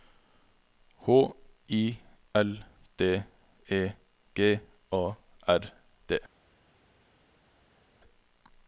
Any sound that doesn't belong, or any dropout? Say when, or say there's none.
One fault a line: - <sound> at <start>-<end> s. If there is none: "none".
none